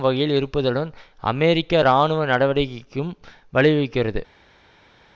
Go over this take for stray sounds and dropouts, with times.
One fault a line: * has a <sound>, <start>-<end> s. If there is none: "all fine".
all fine